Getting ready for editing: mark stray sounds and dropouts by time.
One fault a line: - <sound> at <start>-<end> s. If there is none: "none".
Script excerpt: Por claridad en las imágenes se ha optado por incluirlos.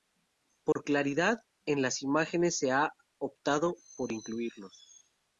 - dropout at 0.7-0.8 s